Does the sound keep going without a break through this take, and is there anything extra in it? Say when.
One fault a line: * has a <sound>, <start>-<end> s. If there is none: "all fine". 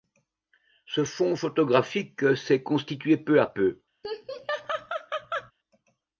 * has a laugh, 4.0-5.5 s